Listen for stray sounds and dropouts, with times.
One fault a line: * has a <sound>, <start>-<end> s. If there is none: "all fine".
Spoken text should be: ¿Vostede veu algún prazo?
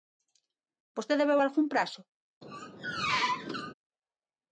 * has a squeak, 2.4-3.7 s